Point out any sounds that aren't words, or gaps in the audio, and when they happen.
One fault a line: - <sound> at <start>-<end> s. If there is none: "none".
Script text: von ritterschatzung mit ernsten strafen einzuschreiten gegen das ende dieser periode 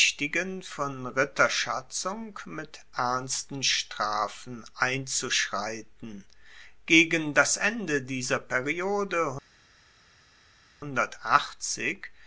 none